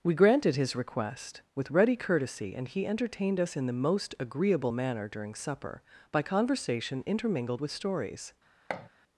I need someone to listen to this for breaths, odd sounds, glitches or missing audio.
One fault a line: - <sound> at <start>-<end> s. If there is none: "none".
- thud at 8.7-8.9 s